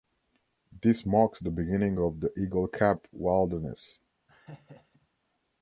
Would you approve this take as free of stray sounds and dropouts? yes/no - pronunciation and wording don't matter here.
no